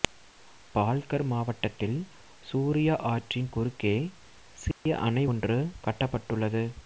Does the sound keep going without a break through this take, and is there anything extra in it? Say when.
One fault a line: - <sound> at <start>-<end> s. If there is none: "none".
- dropout at 4.7-4.9 s